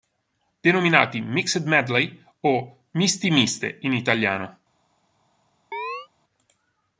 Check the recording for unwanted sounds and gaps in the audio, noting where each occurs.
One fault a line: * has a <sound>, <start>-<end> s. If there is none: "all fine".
* has a chirp, 5.7-6.1 s